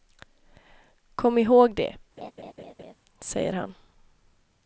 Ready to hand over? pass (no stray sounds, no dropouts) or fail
fail